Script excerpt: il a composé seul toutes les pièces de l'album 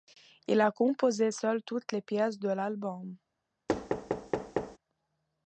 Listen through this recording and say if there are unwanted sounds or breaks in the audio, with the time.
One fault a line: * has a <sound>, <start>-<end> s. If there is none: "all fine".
* has a thud, 3.7-4.8 s